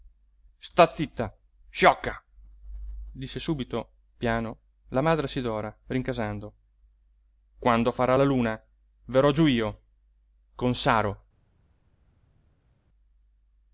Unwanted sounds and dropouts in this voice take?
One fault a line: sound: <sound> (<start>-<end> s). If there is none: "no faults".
no faults